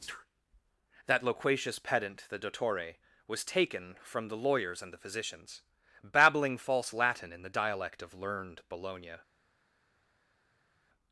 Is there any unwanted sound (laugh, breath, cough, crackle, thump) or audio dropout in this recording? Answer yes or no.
no